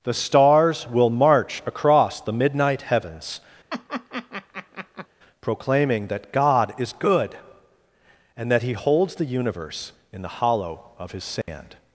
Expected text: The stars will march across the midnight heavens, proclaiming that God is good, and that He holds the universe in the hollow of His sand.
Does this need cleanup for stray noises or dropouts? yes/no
yes